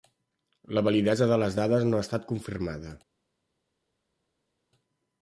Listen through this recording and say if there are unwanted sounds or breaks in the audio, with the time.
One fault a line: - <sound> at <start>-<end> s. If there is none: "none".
none